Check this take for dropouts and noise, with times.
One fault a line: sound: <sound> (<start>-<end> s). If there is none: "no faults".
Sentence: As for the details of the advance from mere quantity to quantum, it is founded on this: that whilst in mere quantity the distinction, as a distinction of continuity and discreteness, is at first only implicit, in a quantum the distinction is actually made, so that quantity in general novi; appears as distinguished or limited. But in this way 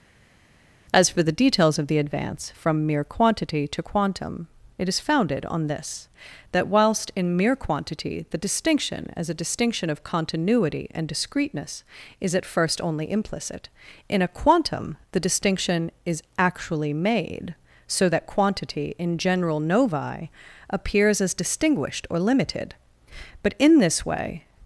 no faults